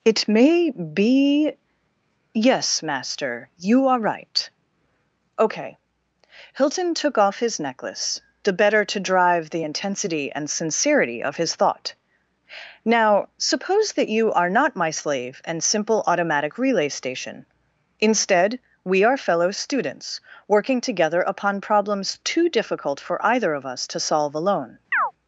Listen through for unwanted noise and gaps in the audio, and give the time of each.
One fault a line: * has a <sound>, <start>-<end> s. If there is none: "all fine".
* has a chirp, 24.9-25.1 s